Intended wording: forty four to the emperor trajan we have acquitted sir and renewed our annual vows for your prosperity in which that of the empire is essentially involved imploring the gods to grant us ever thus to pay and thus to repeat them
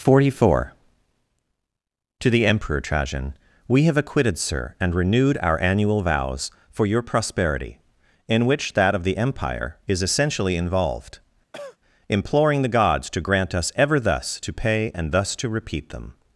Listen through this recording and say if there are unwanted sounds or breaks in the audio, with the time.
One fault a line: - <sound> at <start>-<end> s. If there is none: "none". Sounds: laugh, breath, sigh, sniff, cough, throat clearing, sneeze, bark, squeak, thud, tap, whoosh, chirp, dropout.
- cough at 11.5-11.8 s